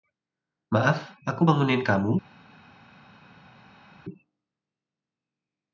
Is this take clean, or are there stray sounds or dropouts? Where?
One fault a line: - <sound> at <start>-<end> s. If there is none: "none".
none